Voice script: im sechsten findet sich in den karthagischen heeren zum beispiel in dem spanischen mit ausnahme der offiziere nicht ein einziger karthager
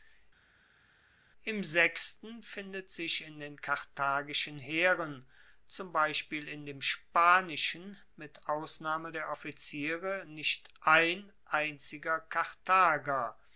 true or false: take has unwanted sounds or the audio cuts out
false